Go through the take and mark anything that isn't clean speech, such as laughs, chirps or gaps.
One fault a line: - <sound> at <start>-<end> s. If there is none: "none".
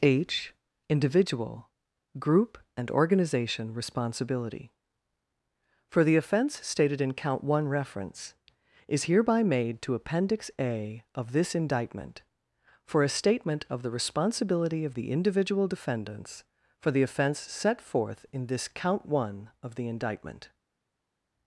none